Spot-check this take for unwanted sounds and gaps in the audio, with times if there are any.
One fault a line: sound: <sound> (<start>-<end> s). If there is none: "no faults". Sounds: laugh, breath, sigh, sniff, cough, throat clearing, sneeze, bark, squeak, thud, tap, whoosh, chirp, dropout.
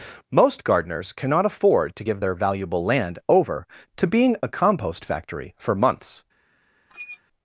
sound: squeak (6.9-7.2 s)